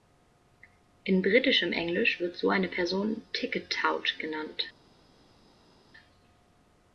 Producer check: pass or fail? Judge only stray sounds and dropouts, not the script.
pass